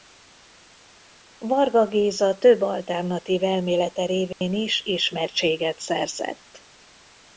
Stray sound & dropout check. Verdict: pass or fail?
fail